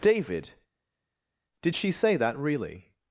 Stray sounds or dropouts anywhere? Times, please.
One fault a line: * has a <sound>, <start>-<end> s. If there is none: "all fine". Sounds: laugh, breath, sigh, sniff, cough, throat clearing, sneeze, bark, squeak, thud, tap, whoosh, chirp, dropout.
all fine